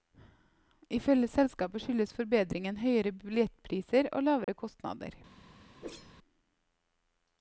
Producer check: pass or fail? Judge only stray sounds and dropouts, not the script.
fail